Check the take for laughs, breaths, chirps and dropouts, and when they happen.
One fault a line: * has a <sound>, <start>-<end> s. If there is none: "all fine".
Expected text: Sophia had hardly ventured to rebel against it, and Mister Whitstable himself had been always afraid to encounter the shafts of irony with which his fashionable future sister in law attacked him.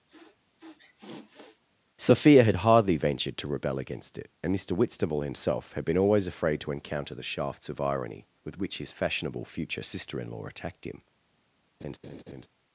* has a sniff, 0.1-1.6 s
* has a laugh, 11.8-12.5 s